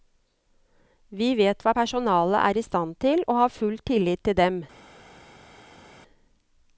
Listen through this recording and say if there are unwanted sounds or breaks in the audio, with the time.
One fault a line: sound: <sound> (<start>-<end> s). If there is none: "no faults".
no faults